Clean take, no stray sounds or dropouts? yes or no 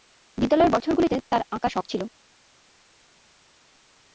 yes